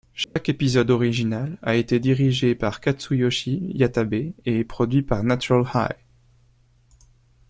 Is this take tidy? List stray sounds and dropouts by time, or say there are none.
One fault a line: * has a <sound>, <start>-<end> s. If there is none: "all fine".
* has a dropout, 0.2-0.4 s